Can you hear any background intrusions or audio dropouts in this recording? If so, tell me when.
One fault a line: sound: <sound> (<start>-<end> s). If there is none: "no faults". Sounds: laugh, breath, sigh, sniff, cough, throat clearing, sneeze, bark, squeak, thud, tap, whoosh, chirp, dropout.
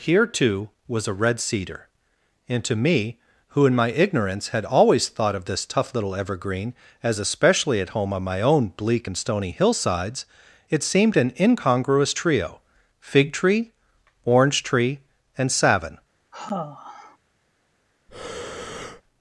sound: sigh (16.3-17.2 s)
sound: breath (18.1-19.0 s)